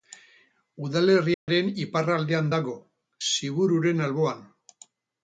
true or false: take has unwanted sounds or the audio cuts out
true